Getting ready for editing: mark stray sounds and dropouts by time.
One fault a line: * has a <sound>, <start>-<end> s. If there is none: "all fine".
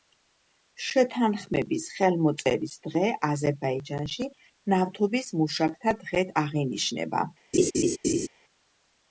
* has a laugh, 7.5-8.3 s